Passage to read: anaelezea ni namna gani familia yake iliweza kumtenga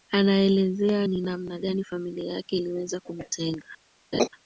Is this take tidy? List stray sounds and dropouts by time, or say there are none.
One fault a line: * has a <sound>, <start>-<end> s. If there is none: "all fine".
* has a laugh, 4.1-4.3 s